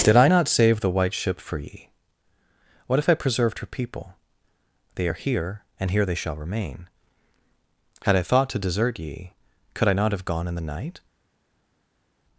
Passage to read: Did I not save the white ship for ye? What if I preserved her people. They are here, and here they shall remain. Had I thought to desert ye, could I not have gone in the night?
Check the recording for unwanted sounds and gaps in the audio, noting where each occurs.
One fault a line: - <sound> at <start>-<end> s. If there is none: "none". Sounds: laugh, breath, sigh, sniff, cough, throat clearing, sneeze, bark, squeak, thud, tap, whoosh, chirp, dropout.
none